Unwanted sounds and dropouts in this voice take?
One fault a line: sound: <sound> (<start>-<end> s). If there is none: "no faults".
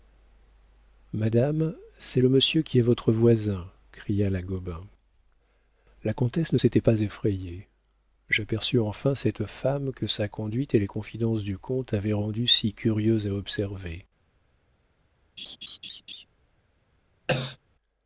sound: laugh (15.4-16.3 s)
sound: cough (17.3-17.6 s)